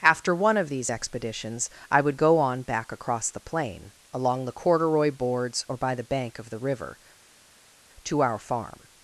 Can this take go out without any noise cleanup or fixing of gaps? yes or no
yes